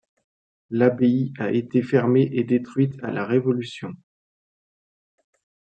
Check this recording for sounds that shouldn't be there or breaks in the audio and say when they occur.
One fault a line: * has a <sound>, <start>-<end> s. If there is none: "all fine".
all fine